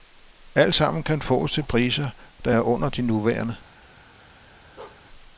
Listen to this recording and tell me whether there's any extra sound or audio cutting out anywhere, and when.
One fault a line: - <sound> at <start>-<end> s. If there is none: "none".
- bark at 4.8-5.1 s